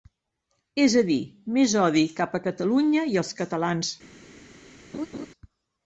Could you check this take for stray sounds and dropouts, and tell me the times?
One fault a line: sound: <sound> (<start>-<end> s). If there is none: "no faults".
sound: laugh (4.9-5.3 s)